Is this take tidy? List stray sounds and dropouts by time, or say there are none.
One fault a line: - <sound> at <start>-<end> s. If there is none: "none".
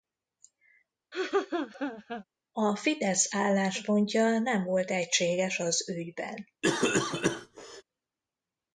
- laugh at 1.1-2.2 s
- cough at 6.6-7.8 s